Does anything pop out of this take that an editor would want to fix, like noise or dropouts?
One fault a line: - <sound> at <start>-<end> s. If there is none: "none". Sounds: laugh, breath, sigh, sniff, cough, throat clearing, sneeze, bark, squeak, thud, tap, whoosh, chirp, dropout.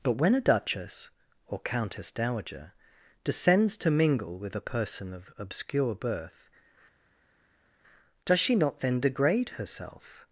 none